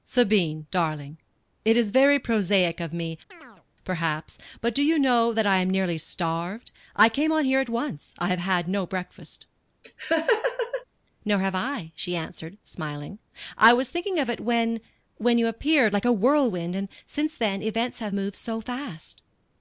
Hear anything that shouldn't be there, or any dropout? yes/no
yes